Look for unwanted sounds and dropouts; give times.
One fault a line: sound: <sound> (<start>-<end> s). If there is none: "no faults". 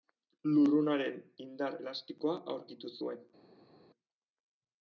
no faults